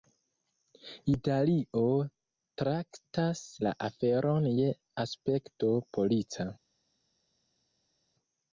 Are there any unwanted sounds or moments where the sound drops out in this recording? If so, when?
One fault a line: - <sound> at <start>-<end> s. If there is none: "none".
none